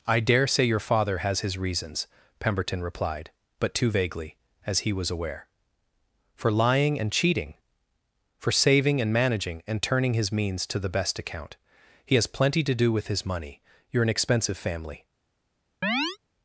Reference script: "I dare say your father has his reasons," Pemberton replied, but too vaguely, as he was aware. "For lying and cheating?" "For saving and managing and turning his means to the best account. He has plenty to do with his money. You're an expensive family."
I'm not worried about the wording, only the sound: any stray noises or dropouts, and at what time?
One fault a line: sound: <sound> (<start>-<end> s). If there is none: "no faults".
sound: chirp (15.8-16.2 s)